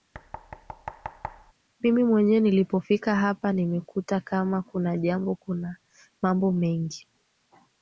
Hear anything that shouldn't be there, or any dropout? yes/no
yes